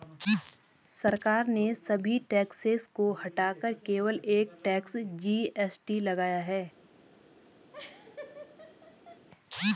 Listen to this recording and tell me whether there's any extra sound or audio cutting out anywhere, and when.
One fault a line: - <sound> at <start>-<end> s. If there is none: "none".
- laugh at 7.7-9.3 s